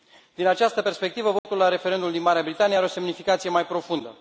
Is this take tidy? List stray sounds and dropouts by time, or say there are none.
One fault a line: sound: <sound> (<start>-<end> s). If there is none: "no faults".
sound: dropout (1.4-1.4 s)